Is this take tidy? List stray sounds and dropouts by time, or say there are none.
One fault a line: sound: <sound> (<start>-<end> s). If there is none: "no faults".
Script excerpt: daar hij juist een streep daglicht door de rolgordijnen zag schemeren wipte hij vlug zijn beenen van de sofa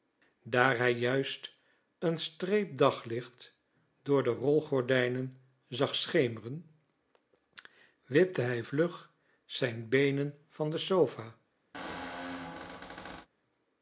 sound: squeak (11.7-13.3 s)